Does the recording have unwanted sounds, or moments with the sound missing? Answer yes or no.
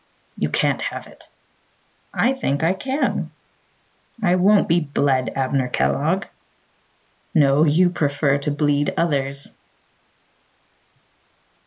no